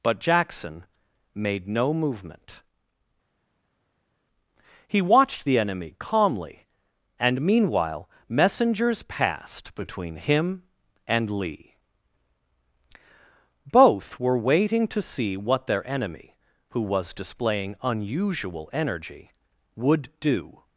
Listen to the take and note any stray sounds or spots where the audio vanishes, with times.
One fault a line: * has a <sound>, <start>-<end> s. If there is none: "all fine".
all fine